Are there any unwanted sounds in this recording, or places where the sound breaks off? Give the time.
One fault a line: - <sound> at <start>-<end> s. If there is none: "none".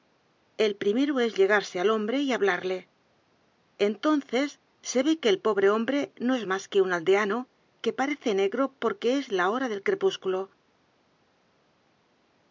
none